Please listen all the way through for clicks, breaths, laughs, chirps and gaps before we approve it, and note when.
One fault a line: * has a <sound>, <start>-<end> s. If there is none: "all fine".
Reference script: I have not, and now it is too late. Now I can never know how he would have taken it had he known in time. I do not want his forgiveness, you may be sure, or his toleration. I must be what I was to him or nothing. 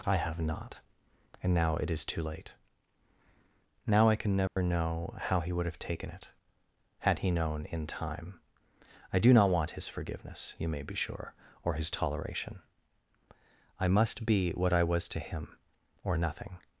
* has a dropout, 4.5-4.6 s